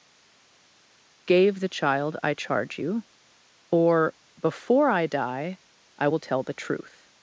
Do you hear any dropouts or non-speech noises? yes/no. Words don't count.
no